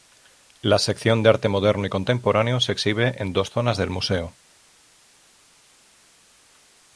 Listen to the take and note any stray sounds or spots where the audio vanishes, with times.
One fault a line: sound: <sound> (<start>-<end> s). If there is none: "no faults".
no faults